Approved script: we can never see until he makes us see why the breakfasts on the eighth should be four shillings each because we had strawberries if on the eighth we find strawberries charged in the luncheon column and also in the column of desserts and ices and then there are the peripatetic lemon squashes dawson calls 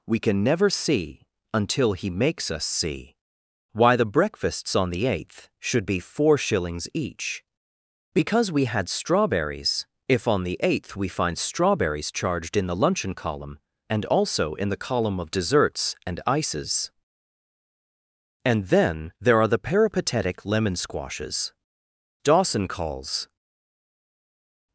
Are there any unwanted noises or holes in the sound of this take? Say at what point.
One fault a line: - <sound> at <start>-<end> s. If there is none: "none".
none